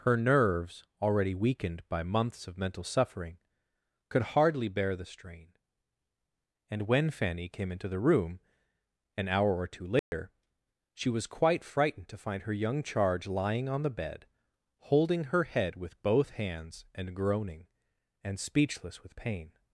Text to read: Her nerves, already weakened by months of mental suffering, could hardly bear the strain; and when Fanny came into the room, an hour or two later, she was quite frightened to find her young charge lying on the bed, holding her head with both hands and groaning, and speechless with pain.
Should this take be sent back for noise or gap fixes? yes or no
yes